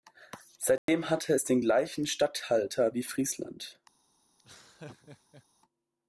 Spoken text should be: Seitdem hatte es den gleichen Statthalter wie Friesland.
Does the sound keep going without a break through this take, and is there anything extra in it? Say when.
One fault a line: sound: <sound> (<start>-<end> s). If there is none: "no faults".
sound: dropout (0.8-0.9 s)
sound: laugh (4.4-5.5 s)